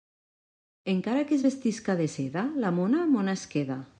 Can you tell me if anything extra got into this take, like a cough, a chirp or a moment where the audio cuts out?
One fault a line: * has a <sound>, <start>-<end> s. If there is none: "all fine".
all fine